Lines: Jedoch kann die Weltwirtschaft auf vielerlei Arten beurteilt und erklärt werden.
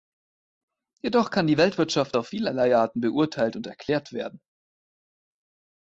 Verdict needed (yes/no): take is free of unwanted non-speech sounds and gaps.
yes